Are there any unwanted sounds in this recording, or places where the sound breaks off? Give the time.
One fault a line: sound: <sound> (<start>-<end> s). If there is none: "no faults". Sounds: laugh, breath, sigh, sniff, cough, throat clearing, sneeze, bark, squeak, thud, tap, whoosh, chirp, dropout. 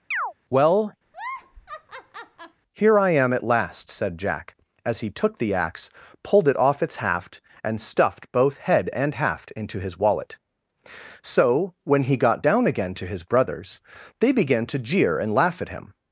sound: chirp (0.1-0.3 s)
sound: laugh (1.1-2.6 s)